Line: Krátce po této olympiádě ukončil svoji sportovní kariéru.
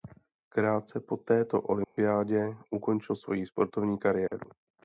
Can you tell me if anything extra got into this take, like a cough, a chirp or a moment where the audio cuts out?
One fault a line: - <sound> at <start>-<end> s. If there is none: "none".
- dropout at 1.8-2.0 s
- dropout at 4.3-4.3 s